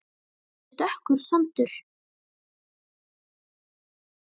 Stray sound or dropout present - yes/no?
no